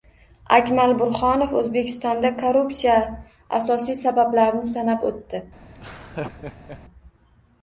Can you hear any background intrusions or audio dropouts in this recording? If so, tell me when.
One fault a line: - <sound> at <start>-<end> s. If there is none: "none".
- laugh at 5.7-6.8 s